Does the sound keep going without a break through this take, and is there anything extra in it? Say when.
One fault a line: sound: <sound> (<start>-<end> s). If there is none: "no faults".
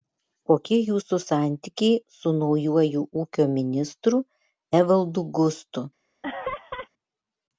sound: laugh (6.2-6.9 s)